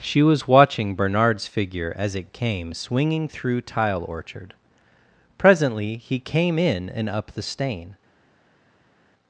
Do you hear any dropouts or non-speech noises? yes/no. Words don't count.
no